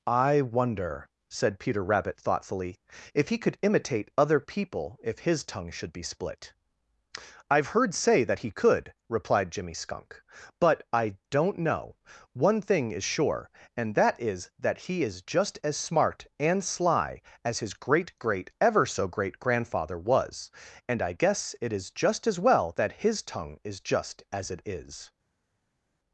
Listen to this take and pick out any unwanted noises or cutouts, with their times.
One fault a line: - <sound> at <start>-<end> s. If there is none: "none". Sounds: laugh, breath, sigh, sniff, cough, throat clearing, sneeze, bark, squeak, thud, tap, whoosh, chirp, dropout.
none